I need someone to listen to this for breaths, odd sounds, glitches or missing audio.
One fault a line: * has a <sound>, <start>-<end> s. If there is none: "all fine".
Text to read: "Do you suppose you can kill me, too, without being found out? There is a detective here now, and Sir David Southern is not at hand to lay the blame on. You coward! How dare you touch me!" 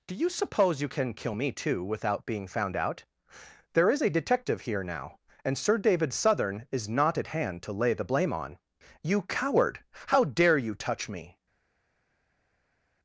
all fine